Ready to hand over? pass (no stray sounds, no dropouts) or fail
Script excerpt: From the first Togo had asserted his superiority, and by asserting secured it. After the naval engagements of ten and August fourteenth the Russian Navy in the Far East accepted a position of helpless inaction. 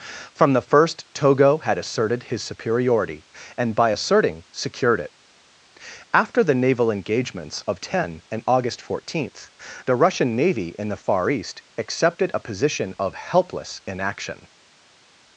pass